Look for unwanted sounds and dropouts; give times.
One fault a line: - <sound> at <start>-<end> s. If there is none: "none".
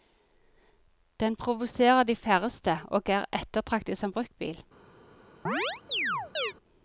- chirp at 5.5-6.5 s